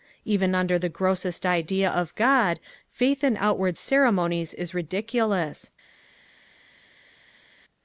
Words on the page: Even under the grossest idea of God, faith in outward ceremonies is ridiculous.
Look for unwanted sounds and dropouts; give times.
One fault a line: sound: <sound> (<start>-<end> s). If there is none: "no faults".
no faults